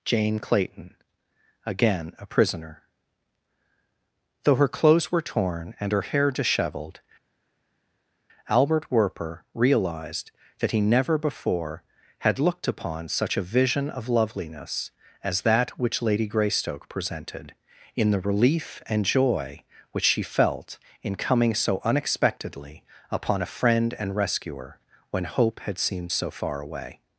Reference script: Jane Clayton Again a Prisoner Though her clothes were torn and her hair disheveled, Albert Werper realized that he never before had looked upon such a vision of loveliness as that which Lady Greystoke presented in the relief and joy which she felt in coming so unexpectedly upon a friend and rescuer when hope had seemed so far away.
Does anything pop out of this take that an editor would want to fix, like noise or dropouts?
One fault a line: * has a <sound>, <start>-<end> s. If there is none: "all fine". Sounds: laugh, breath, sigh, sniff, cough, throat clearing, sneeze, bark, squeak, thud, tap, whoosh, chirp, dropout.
all fine